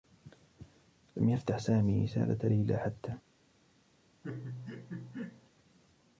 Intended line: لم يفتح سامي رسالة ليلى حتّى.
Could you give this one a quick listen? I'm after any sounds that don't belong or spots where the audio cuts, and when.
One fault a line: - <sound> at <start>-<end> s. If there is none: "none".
- laugh at 4.2-5.5 s